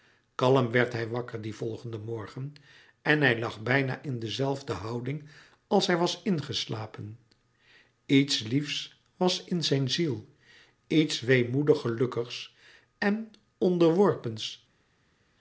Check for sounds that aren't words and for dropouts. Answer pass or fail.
pass